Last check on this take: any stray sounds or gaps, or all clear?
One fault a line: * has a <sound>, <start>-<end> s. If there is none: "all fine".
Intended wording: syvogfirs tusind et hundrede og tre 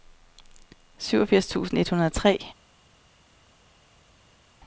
all fine